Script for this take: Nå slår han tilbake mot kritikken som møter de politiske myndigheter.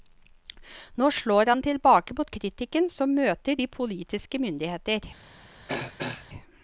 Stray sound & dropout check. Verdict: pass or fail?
fail